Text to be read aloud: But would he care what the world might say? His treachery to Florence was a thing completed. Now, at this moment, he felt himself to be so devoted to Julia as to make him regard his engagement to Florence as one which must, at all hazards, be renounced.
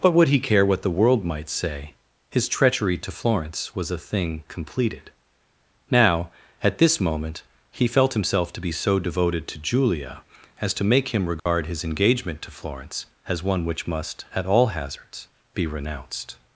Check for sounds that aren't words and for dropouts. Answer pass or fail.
fail